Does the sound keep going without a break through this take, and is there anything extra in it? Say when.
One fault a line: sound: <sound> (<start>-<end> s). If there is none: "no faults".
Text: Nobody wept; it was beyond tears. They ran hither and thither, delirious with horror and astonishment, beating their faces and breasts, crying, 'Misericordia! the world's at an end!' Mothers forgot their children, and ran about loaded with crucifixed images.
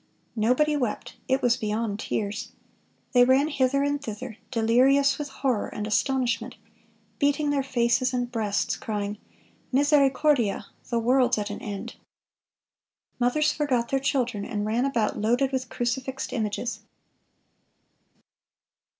no faults